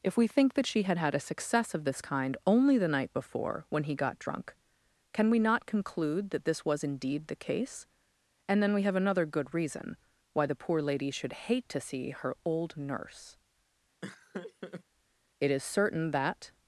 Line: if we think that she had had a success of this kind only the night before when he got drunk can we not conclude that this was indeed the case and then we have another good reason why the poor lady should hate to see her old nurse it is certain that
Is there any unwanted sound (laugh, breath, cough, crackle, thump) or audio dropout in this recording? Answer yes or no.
yes